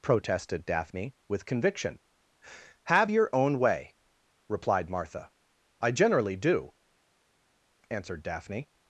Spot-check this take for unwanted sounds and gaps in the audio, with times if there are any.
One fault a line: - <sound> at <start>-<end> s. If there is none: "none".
none